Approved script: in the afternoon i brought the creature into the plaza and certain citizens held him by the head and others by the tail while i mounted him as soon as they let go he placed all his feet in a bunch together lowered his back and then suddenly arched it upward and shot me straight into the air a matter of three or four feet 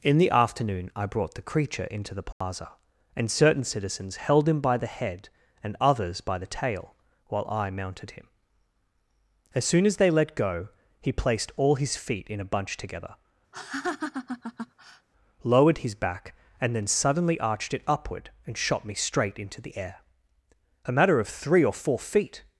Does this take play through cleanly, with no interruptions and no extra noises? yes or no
no